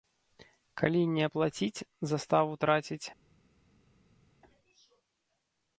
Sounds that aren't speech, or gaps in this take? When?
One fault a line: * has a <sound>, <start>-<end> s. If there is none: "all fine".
all fine